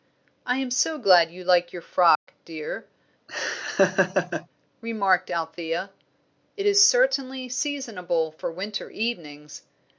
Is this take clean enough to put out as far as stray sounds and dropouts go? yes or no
no